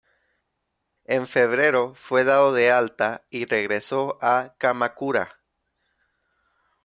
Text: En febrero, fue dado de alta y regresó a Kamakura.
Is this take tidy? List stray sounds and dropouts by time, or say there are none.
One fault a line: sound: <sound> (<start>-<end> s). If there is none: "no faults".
no faults